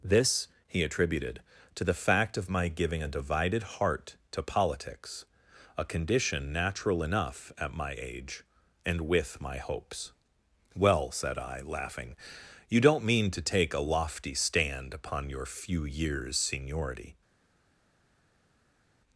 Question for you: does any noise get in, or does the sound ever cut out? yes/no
no